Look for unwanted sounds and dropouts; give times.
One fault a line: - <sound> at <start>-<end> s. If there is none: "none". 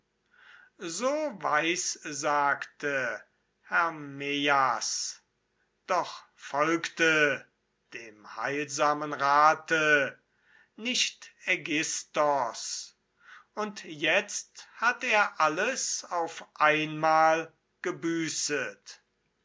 none